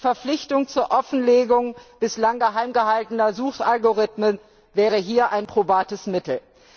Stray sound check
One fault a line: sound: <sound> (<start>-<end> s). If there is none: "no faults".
no faults